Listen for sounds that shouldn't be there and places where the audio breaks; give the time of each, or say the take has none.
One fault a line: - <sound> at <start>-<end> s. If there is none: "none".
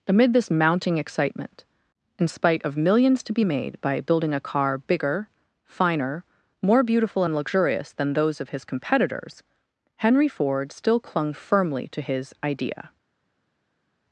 none